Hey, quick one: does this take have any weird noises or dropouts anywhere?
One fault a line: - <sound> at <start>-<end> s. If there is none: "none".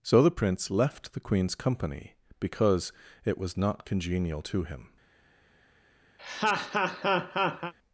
- laugh at 6.2-7.7 s